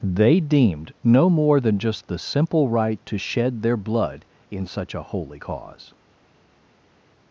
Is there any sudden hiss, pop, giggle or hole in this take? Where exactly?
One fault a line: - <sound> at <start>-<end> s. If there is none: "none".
none